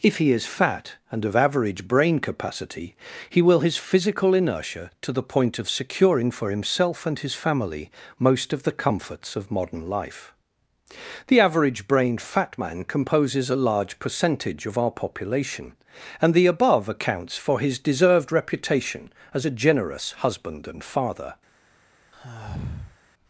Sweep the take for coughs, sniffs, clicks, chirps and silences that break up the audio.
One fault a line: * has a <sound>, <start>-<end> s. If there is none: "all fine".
* has a sigh, 22.1-23.0 s